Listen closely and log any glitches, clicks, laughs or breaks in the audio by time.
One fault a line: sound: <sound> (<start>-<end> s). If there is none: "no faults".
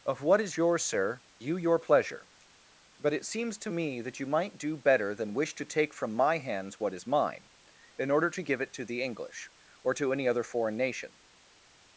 no faults